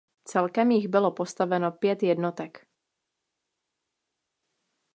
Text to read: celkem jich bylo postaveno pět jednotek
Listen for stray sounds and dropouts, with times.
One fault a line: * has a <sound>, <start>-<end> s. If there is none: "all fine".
all fine